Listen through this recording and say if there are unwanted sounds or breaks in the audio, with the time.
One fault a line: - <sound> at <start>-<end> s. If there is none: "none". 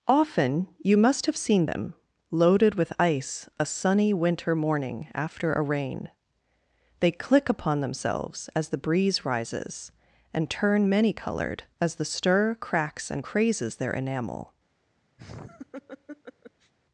- laugh at 15.2-16.7 s